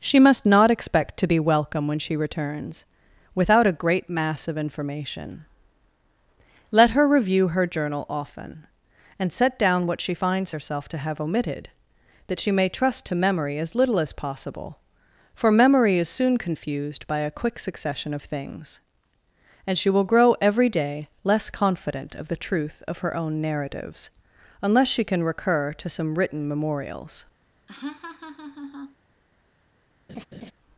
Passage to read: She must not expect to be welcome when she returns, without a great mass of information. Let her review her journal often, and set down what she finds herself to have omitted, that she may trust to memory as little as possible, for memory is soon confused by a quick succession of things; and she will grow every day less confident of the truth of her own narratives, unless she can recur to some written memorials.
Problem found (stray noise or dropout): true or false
true